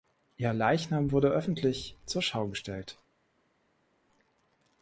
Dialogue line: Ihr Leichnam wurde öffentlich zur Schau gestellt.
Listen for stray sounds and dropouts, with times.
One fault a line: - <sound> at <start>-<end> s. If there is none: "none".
none